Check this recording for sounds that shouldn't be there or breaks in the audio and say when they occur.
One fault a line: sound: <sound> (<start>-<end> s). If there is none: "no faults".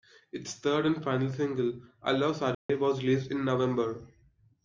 sound: dropout (2.5-2.7 s)